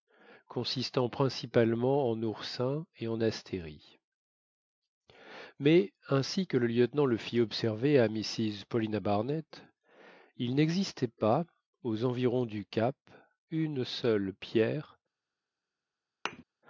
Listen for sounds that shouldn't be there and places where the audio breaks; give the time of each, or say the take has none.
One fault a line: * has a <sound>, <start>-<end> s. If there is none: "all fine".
* has a thud, 16.3-16.4 s